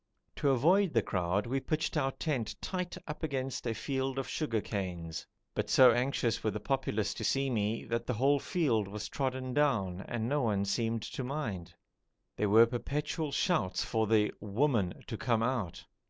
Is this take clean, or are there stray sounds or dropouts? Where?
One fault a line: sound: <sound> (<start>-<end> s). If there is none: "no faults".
no faults